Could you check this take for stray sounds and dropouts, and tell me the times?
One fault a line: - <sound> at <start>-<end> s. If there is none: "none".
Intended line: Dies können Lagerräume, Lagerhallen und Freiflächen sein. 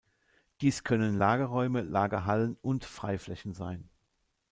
none